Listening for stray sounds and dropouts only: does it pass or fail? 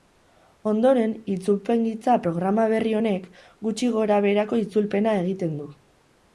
pass